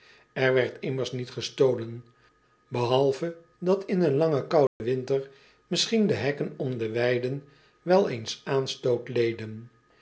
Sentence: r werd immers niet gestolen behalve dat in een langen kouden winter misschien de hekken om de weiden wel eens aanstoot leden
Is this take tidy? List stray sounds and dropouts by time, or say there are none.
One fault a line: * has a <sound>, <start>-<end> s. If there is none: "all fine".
* has a dropout, 4.7-4.8 s